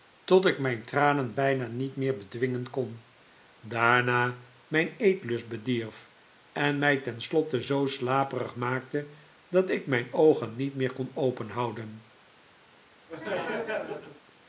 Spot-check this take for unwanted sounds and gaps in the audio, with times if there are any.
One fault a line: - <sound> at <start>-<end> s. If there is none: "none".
- laugh at 13.1-14.2 s